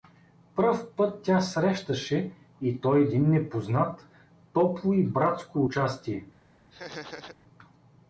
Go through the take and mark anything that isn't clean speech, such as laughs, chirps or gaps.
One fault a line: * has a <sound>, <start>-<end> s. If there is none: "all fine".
* has a laugh, 6.7-7.4 s